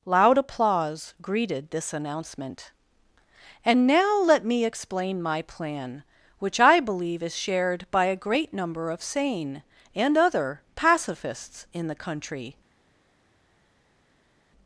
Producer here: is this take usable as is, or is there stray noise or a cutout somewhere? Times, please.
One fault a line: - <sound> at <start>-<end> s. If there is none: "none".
none